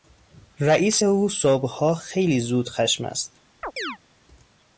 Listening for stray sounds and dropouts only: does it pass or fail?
fail